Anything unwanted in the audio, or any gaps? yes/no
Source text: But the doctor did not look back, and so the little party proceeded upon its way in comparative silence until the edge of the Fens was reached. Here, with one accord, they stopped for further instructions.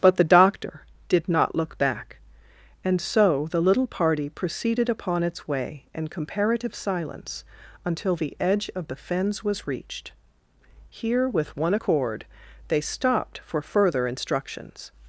no